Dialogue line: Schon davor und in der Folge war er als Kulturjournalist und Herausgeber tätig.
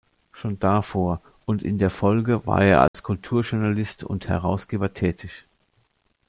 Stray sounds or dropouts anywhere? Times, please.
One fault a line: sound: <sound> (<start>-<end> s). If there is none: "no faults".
sound: dropout (2.9-2.9 s)